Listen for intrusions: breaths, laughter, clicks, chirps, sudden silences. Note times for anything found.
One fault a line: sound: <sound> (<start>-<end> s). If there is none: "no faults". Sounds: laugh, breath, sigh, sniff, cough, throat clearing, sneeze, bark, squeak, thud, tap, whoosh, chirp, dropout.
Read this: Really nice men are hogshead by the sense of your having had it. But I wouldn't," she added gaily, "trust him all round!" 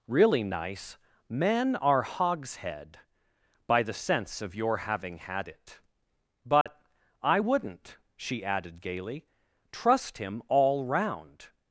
sound: dropout (6.6-6.7 s)